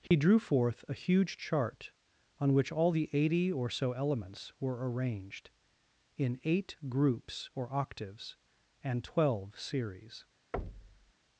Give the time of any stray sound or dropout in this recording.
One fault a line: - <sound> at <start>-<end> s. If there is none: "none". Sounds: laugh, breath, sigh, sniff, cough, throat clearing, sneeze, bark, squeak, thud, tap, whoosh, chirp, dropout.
- dropout at 0.1-0.1 s
- thud at 10.5-11.1 s